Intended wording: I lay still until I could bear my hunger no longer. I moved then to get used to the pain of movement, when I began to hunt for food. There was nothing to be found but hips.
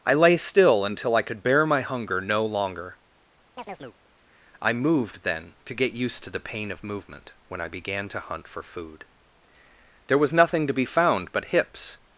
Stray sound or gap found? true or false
true